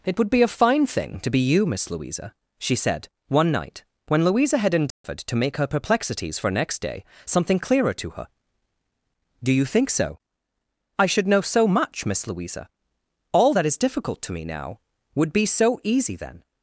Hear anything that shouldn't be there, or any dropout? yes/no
yes